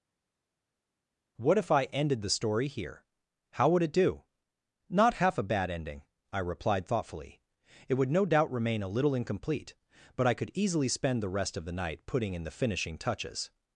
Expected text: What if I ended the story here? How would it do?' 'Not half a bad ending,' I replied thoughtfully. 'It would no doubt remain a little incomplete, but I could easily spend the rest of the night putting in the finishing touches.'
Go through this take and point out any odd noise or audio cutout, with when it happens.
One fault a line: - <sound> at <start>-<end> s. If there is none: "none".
none